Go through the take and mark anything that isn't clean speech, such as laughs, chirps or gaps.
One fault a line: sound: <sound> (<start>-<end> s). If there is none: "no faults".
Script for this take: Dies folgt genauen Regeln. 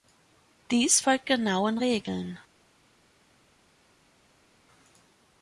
no faults